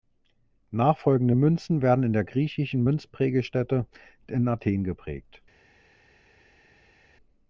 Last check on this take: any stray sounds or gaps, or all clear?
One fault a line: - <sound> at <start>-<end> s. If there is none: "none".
none